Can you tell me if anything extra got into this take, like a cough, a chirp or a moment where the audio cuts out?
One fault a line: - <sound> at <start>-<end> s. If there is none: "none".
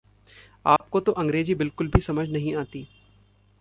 - dropout at 0.8-0.8 s